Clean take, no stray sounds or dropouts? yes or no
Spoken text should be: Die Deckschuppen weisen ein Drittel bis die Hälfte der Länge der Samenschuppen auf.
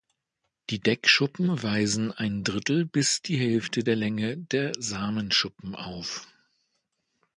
yes